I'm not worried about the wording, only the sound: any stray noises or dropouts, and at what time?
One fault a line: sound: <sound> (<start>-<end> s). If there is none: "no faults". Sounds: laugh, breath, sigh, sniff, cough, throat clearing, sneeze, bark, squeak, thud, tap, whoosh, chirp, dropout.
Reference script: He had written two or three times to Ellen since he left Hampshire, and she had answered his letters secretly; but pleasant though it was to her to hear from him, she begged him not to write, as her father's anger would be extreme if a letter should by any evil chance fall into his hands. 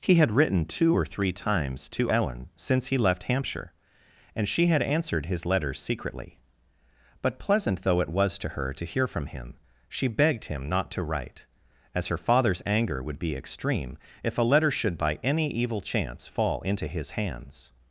no faults